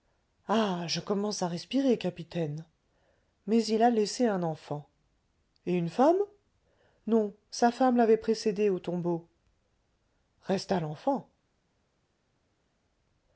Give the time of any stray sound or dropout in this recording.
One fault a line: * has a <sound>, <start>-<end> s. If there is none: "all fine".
all fine